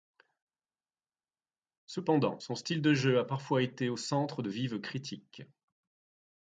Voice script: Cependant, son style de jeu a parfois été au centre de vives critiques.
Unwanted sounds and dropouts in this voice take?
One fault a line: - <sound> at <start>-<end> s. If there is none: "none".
none